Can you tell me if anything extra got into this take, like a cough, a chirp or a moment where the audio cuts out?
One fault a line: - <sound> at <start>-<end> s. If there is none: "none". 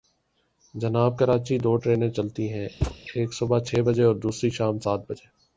- thud at 2.8-3.0 s